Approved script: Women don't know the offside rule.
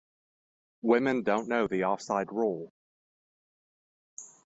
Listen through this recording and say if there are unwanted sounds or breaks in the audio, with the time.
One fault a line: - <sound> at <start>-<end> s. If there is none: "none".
none